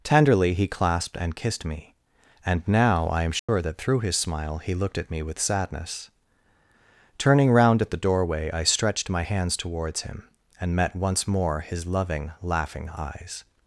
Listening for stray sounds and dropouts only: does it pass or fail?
fail